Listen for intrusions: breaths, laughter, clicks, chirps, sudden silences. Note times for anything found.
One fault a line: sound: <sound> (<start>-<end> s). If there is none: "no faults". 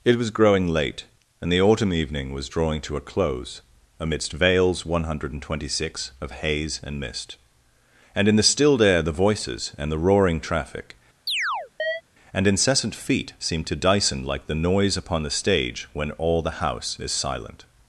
sound: chirp (11.3-12.0 s)